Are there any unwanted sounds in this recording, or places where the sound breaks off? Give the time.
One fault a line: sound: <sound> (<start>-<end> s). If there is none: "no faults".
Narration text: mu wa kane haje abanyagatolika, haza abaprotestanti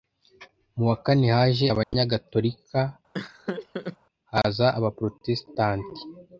sound: dropout (1.8-1.9 s)
sound: laugh (3.1-4.0 s)